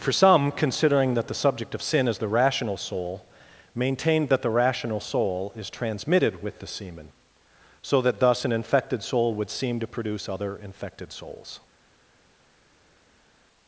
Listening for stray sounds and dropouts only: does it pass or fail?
pass